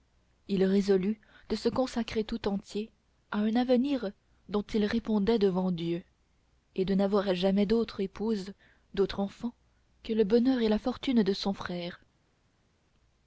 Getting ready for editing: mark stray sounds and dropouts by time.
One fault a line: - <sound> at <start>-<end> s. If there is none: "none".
none